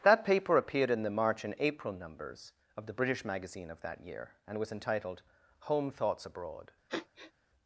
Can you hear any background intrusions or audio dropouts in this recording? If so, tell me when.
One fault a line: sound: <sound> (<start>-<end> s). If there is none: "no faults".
sound: sniff (6.9-7.3 s)